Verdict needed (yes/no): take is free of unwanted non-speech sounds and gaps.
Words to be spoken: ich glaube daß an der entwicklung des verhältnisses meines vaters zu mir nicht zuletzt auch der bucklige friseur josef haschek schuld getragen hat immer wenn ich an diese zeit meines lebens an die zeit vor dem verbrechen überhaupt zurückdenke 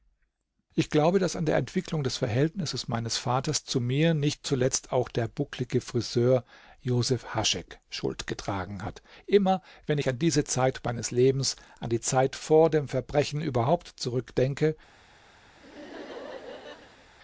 no